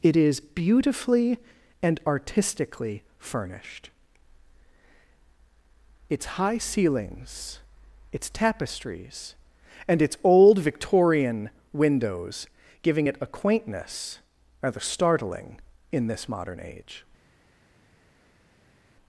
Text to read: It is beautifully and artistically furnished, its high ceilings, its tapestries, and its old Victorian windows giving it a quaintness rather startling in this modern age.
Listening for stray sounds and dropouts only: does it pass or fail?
pass